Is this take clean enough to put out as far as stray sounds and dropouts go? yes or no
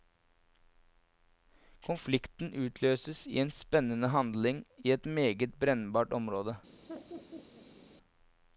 no